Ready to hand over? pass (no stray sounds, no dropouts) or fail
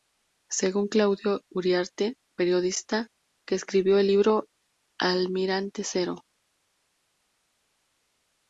pass